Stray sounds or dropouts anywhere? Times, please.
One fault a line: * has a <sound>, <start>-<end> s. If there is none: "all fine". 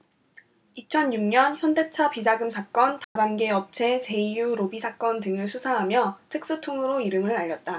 * has a dropout, 3.0-3.2 s